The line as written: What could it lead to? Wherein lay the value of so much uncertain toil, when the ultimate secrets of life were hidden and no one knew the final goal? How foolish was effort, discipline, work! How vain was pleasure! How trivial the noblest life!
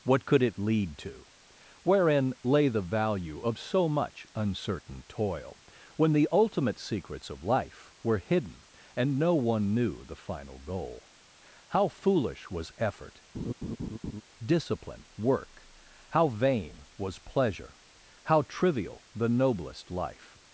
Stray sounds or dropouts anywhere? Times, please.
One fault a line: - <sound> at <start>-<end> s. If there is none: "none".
- laugh at 13.3-14.2 s